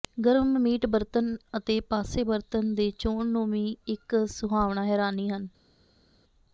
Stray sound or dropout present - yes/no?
no